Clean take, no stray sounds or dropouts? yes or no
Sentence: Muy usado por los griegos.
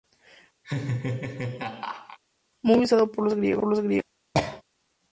no